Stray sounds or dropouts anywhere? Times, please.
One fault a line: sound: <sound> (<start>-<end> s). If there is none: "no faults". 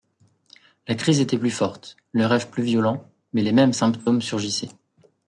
no faults